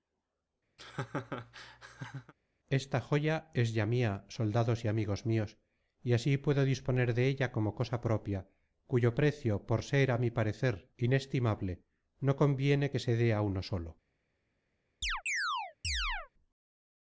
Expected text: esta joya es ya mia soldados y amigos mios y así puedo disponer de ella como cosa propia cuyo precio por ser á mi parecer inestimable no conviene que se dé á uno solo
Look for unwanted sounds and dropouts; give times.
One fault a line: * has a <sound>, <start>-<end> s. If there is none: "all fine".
* has a laugh, 0.8-2.3 s
* has a chirp, 15.0-16.3 s